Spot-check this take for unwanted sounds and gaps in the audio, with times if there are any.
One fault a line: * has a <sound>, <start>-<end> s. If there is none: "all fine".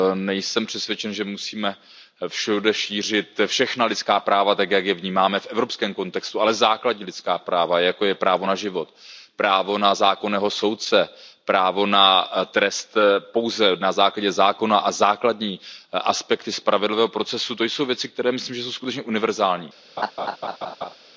* has a laugh, 20.0-21.0 s